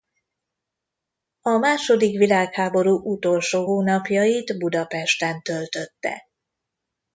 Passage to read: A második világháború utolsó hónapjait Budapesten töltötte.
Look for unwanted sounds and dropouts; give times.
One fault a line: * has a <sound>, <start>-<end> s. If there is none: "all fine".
all fine